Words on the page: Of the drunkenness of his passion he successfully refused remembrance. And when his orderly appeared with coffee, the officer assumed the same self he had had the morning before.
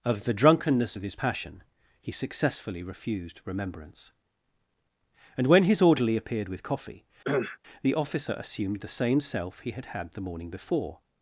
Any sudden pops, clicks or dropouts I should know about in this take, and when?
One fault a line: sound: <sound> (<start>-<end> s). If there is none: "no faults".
sound: cough (7.2-7.6 s)